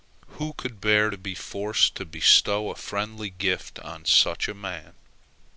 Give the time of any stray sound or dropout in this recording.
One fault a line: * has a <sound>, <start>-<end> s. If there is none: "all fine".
all fine